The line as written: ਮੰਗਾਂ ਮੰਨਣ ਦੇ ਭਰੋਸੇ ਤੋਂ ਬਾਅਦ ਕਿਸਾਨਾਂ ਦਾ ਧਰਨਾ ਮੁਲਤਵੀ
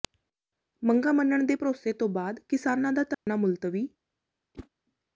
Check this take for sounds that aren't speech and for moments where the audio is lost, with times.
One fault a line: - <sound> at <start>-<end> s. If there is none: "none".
- dropout at 3.1-3.3 s
- whoosh at 4.5-4.7 s